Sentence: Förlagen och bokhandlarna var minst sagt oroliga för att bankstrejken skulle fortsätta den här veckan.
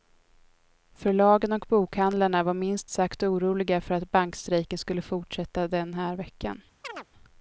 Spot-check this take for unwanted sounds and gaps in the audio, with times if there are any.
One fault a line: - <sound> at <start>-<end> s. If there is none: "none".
- chirp at 6.8-7.1 s